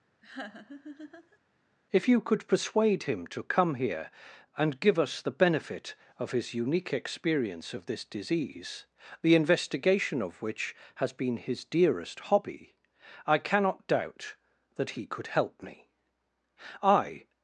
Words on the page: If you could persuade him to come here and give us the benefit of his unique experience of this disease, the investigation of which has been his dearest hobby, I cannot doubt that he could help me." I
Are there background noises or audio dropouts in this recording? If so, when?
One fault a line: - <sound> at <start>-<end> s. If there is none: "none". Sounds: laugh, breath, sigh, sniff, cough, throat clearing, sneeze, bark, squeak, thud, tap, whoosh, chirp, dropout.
- laugh at 0.2-1.4 s